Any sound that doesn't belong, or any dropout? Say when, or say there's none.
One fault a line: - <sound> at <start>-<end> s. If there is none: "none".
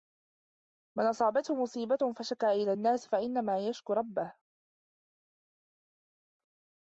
none